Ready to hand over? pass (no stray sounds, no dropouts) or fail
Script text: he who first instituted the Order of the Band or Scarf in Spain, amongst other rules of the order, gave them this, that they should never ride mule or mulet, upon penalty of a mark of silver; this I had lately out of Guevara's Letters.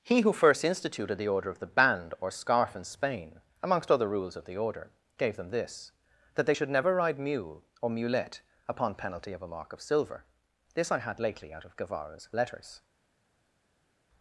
pass